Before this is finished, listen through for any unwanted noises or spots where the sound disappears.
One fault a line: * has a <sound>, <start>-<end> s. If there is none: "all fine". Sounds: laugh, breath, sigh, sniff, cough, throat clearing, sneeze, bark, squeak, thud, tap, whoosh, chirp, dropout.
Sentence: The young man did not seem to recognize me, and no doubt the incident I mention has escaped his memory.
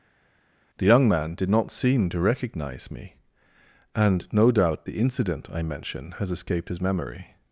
all fine